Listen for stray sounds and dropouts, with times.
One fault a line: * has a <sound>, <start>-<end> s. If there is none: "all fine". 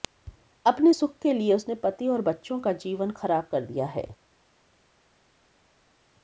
all fine